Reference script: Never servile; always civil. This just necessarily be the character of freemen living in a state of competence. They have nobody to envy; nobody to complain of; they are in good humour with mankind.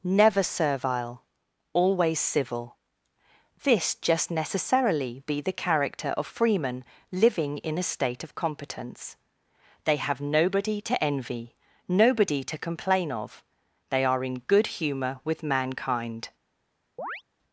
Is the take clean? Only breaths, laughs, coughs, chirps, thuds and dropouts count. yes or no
no